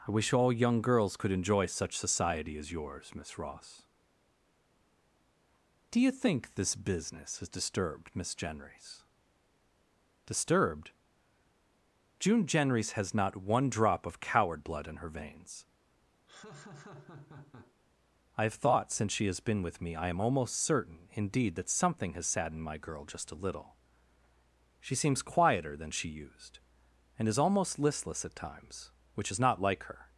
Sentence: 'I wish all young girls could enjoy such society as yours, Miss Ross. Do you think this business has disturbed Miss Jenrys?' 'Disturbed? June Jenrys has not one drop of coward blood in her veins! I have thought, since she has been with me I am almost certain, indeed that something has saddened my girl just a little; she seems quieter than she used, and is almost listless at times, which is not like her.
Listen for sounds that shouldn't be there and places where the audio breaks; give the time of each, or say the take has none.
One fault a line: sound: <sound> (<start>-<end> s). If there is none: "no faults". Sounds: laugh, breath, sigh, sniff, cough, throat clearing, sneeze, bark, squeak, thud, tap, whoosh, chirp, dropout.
sound: laugh (16.3-17.8 s)